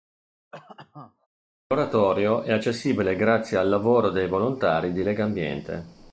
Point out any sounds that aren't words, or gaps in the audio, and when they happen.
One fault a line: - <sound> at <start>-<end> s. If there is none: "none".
- cough at 0.5-1.3 s